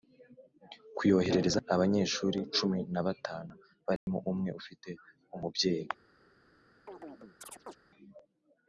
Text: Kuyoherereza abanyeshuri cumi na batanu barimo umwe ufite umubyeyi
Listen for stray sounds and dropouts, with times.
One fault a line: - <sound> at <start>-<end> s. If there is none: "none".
- dropout at 4.0-4.1 s
- chirp at 6.9-7.8 s